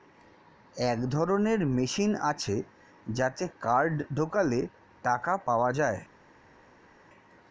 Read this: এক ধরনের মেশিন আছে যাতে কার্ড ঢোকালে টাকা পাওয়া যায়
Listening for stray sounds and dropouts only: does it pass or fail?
pass